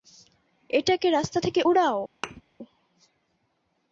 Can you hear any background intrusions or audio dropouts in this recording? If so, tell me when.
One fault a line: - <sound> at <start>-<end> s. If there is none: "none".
- thud at 2.2-2.4 s